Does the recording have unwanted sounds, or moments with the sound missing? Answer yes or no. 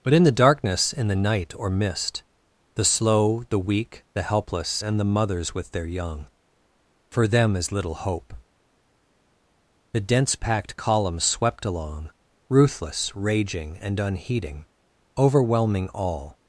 no